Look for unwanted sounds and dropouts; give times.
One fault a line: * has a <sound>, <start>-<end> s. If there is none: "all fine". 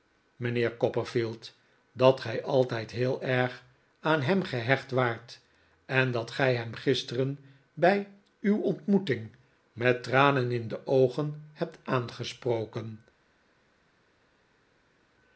all fine